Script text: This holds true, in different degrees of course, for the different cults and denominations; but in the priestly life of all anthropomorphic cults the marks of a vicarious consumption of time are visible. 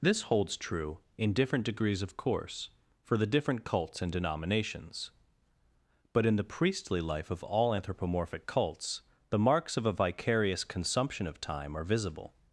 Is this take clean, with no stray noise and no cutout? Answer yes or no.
yes